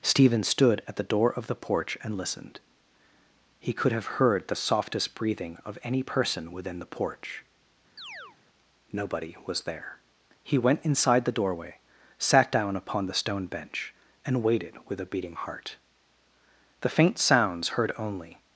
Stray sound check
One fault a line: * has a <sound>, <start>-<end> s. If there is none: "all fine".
* has a chirp, 8.0-8.4 s